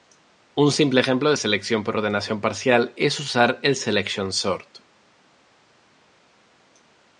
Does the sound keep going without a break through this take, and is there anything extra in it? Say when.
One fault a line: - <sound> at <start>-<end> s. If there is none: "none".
none